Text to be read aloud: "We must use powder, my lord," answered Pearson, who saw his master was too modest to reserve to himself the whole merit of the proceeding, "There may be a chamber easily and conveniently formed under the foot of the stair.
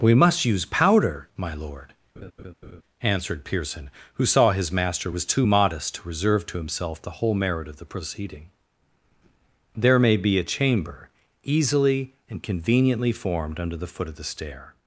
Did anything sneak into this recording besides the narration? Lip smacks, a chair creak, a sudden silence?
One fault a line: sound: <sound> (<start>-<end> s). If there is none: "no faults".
sound: laugh (2.2-2.8 s)